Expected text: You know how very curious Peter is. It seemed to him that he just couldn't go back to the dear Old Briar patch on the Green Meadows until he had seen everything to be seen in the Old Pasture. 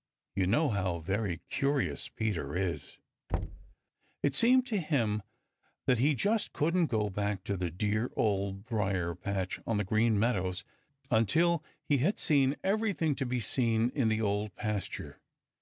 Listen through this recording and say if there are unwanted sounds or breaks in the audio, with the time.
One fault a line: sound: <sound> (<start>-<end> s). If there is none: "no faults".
sound: thud (3.3-3.7 s)